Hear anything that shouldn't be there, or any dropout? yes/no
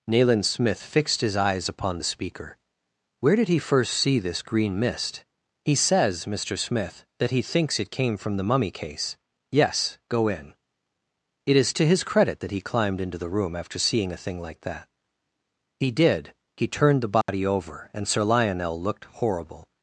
yes